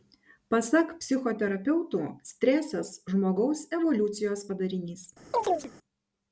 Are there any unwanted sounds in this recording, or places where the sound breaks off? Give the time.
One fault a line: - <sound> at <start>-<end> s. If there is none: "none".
- chirp at 5.3-5.7 s